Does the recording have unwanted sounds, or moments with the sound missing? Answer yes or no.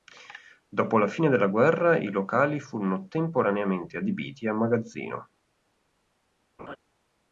yes